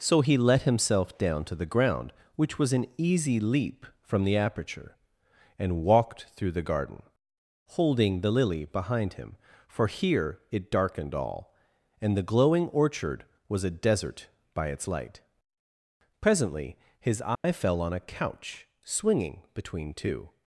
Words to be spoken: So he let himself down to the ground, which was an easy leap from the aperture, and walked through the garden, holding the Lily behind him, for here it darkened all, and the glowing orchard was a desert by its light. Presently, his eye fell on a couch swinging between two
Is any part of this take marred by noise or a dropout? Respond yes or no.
yes